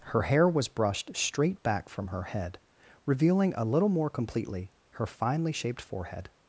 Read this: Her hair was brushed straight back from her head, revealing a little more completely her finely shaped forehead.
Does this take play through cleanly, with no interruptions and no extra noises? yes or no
yes